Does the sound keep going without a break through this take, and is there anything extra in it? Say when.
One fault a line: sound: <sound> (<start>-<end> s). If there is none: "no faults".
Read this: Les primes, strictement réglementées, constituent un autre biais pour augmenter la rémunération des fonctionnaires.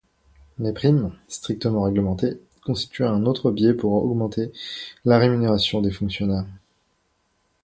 no faults